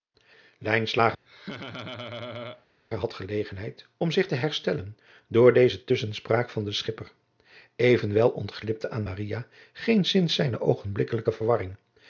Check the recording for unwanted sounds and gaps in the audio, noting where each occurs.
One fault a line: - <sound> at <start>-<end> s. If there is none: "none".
- laugh at 1.2-2.7 s